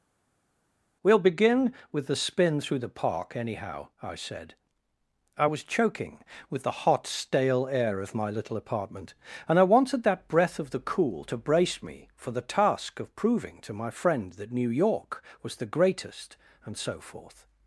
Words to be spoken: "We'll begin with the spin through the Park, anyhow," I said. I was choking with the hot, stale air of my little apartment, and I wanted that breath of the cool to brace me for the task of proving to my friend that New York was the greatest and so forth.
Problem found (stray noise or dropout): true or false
false